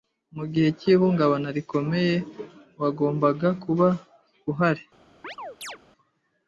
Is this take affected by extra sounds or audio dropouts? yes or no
yes